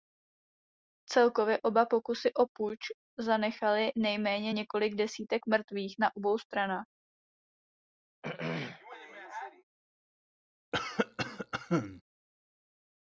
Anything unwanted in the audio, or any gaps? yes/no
yes